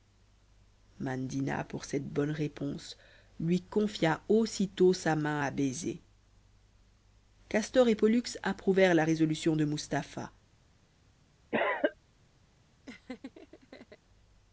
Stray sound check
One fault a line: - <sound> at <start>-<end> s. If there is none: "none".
- cough at 11.5-12.0 s
- laugh at 12.9-14.0 s